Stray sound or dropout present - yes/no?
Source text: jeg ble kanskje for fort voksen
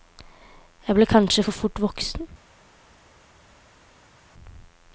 no